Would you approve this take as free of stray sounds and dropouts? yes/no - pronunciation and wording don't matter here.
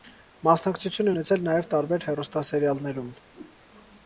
no